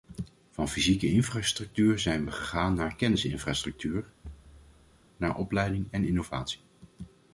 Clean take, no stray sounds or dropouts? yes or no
no